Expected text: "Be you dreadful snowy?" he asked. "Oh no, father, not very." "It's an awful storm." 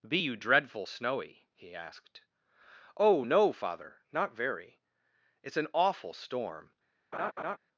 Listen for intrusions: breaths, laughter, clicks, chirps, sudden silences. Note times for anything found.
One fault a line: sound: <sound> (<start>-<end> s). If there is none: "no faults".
sound: laugh (7.1-7.6 s)